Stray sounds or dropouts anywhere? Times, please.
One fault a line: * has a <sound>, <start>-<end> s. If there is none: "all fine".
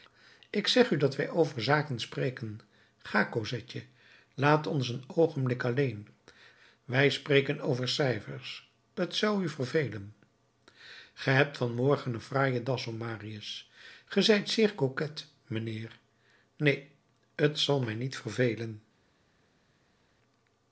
all fine